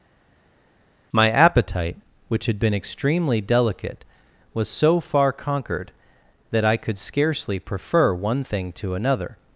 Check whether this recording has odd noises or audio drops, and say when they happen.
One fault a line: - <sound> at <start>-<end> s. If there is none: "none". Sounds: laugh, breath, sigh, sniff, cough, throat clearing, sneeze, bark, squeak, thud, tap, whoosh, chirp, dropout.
none